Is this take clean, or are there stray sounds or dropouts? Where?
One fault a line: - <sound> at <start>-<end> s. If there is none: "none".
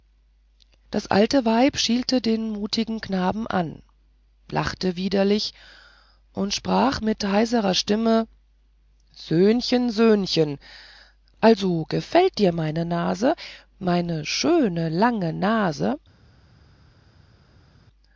none